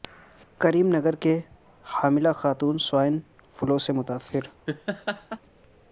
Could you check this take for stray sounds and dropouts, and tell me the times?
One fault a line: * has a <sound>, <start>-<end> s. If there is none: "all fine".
* has a laugh, 4.7-5.4 s